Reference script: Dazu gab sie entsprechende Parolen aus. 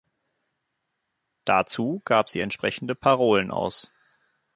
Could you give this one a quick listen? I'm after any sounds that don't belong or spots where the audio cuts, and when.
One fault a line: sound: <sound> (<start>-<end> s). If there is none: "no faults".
no faults